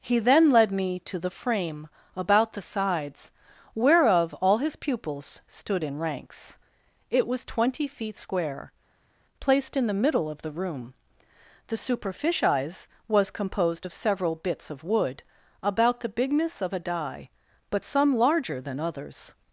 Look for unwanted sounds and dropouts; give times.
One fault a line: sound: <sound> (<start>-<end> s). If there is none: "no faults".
no faults